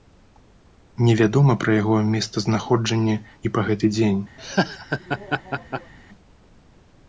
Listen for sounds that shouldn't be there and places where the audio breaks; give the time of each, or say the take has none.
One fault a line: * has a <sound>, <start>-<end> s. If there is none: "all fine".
* has a laugh, 4.4-5.9 s